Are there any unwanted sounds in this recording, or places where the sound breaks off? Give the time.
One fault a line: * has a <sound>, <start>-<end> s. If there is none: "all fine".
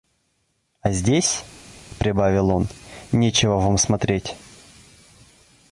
all fine